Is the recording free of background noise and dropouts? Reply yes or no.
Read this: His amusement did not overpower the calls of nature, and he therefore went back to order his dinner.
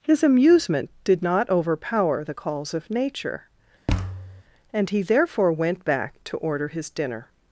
no